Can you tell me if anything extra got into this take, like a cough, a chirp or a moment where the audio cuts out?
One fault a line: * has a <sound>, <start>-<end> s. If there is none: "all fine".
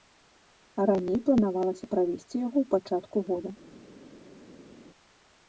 all fine